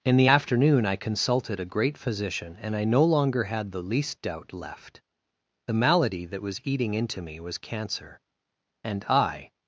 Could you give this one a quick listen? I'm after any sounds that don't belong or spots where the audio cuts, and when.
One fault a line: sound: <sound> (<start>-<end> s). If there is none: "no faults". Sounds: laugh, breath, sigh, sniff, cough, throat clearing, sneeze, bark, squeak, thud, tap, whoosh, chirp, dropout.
no faults